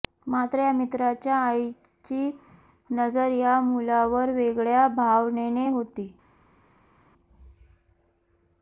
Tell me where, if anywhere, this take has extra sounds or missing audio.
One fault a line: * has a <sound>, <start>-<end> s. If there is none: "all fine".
all fine